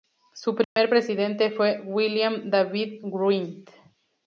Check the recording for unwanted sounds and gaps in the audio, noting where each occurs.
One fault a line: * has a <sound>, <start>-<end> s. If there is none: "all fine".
* has a dropout, 0.6-0.8 s